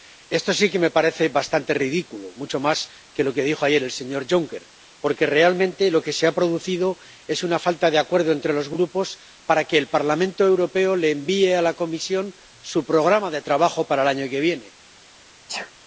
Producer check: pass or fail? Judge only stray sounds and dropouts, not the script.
fail